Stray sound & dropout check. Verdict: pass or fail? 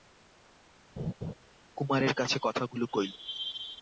fail